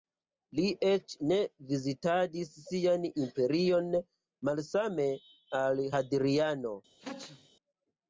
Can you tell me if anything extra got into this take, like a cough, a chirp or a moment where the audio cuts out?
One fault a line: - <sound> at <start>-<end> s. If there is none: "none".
- sneeze at 7.0-7.5 s